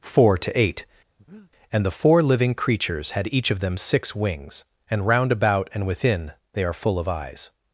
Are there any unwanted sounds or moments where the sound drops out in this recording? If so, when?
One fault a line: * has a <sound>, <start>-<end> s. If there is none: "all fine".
* has a breath, 1.2-1.5 s